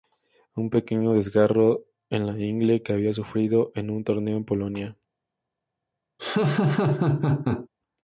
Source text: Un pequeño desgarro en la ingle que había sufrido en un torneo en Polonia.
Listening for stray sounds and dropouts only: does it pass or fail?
fail